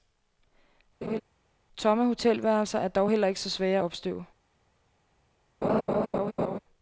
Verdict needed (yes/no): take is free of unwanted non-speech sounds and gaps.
no